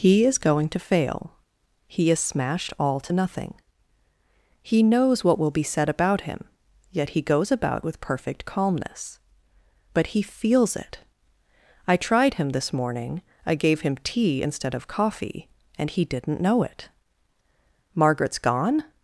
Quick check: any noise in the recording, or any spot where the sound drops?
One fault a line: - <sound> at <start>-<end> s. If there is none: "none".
none